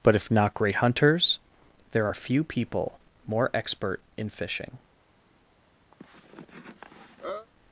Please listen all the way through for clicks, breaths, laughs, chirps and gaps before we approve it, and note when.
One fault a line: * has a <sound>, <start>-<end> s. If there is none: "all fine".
* has a cough, 5.9-7.5 s